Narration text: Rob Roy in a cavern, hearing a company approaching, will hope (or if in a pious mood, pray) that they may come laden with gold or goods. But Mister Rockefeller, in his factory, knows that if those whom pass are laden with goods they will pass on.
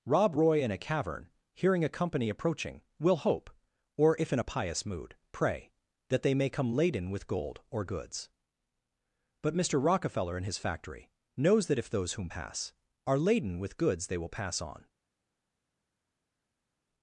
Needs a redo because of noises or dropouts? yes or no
no